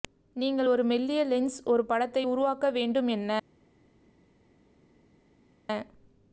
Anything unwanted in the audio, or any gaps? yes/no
no